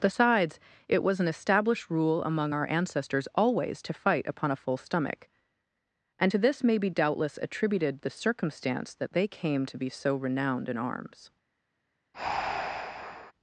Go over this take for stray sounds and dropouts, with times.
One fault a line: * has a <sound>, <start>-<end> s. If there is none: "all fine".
* has a breath, 12.1-13.3 s